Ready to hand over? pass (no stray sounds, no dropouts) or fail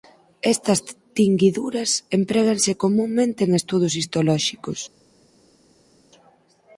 pass